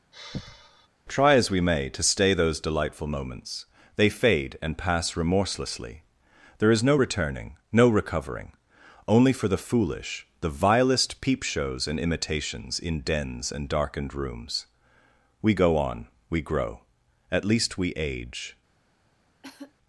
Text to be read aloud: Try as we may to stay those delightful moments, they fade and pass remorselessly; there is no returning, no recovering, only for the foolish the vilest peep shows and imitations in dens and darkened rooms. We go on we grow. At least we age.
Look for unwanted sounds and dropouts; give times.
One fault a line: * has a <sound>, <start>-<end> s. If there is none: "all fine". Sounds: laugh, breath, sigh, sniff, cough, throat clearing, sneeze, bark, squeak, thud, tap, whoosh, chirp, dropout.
* has a sigh, 0.1-0.9 s
* has a cough, 19.4-19.7 s